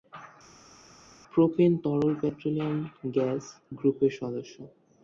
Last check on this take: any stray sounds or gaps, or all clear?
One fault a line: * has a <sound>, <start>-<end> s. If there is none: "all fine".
all fine